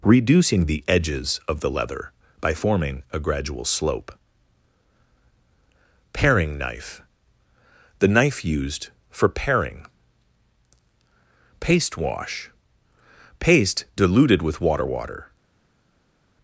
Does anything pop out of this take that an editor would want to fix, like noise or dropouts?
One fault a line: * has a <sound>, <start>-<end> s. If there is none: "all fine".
all fine